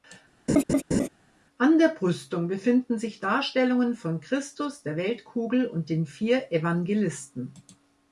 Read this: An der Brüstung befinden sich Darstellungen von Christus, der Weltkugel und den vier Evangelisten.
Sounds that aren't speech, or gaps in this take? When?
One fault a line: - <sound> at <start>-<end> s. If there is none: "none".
- laugh at 0.5-1.1 s